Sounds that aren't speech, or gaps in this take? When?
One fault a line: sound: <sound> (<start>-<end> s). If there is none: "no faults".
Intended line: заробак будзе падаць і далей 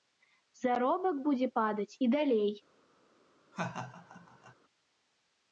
sound: laugh (3.5-4.5 s)